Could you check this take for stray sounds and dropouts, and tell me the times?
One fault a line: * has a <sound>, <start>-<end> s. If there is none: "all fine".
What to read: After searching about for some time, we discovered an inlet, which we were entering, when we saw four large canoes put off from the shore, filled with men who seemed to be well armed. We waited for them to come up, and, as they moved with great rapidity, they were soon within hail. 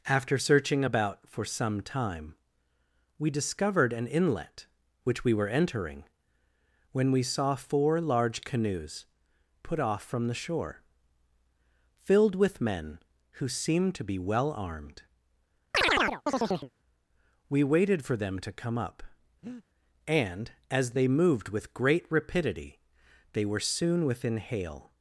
* has a chirp, 15.7-16.7 s
* has a breath, 19.4-19.6 s